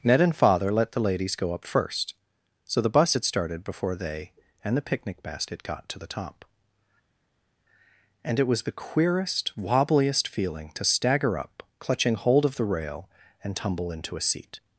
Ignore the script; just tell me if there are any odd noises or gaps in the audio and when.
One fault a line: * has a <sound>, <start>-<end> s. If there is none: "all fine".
all fine